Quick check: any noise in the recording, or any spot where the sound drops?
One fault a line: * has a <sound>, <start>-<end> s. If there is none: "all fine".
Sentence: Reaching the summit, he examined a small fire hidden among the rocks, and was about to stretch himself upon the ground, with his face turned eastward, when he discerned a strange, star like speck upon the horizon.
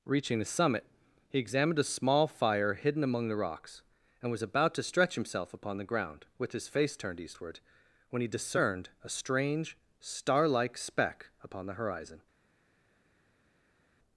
all fine